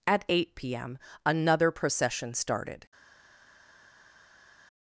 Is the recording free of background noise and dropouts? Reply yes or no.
yes